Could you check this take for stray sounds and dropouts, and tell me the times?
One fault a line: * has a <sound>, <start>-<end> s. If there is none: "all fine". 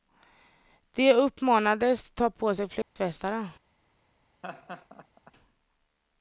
* has a dropout, 2.8-3.0 s
* has a laugh, 4.4-5.3 s